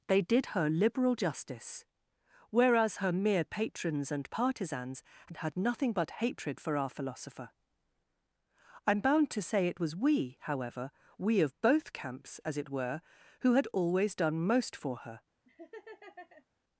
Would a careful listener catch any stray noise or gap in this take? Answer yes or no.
yes